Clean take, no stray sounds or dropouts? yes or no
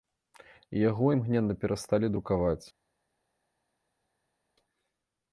yes